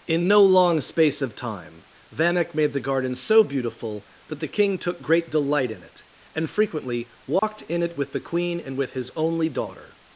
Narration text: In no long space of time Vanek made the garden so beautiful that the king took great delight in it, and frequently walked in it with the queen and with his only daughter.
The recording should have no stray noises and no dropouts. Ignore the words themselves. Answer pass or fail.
fail